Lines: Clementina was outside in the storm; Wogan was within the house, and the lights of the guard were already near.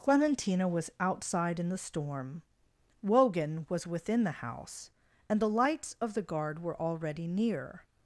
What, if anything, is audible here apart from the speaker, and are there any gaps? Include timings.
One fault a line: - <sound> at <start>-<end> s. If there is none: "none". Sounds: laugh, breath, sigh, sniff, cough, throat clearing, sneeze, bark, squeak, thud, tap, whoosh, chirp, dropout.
none